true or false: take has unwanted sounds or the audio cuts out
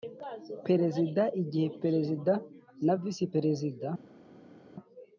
false